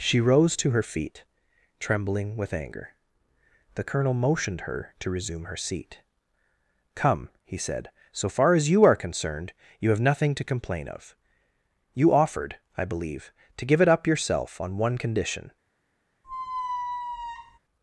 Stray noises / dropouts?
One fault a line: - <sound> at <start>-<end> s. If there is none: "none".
- squeak at 16.2-17.6 s